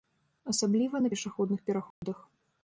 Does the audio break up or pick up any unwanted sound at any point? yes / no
yes